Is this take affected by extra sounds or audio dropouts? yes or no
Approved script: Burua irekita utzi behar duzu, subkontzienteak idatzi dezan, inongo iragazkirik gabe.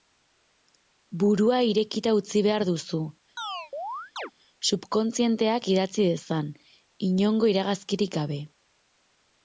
yes